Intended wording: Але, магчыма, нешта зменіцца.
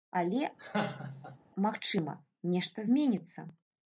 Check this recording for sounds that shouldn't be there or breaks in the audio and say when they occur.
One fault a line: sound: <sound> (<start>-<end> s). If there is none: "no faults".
sound: laugh (0.6-1.4 s)